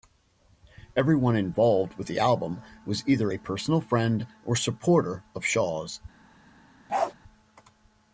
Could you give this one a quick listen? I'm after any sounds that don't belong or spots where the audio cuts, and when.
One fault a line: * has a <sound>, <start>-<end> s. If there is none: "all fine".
* has a bark, 6.9-7.1 s